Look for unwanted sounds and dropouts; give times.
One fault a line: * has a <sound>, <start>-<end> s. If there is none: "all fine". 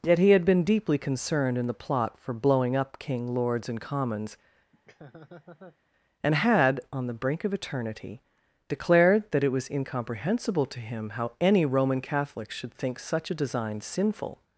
* has a laugh, 4.7-5.8 s